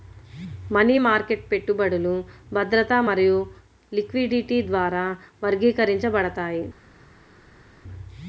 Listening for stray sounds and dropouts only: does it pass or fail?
pass